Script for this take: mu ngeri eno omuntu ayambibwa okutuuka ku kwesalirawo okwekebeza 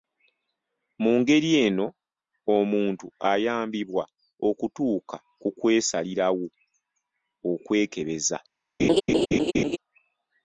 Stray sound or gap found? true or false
true